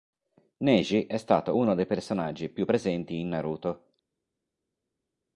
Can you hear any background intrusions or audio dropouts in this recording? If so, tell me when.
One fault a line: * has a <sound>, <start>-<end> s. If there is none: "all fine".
all fine